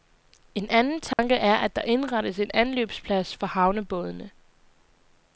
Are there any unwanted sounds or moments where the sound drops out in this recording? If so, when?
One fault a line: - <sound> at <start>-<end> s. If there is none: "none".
- dropout at 1.1-1.2 s